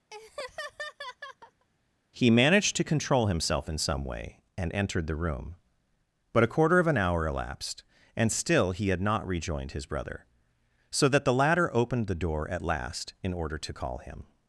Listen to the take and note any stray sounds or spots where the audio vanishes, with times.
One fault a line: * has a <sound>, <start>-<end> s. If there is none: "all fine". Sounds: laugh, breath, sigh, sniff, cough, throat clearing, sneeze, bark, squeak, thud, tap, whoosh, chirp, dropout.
* has a laugh, 0.1-1.7 s